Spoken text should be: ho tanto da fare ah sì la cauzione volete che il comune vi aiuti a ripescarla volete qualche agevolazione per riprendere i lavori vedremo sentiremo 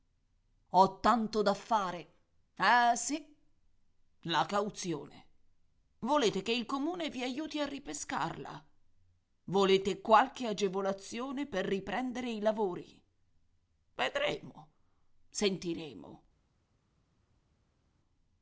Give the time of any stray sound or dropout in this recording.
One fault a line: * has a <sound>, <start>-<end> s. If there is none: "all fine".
all fine